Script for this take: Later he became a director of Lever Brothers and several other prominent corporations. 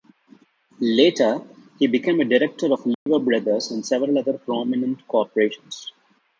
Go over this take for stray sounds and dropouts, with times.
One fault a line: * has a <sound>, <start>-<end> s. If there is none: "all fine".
* has a dropout, 2.9-3.1 s